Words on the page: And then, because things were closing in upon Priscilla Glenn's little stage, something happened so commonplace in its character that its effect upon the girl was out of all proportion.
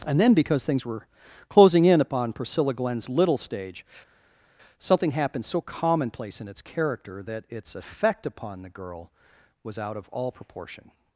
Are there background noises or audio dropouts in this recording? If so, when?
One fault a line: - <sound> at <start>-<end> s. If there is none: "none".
none